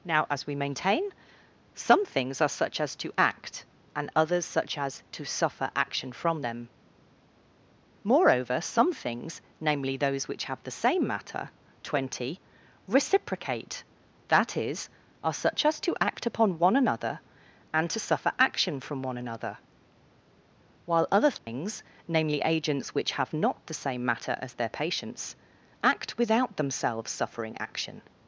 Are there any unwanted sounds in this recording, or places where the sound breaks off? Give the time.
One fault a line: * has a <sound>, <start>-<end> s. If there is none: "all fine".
* has a dropout, 21.4-21.5 s